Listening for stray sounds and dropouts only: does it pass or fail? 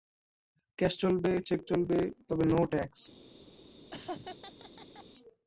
fail